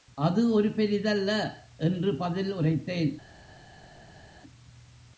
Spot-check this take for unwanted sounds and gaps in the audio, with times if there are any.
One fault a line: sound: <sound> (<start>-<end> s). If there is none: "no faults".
no faults